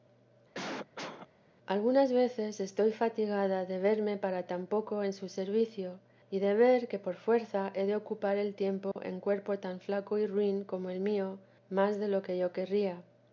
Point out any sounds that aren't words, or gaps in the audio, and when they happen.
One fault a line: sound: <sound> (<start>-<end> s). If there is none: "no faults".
sound: cough (0.5-1.3 s)
sound: dropout (8.9-9.0 s)